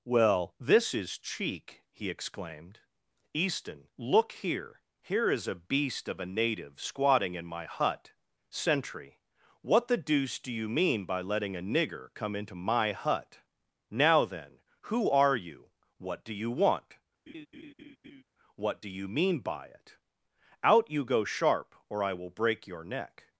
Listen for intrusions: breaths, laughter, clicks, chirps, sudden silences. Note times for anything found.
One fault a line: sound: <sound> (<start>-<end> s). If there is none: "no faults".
sound: laugh (17.3-18.2 s)